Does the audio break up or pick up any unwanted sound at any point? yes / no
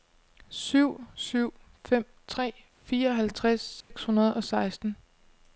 yes